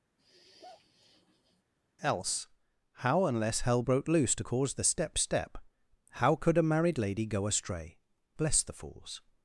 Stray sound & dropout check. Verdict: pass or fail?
fail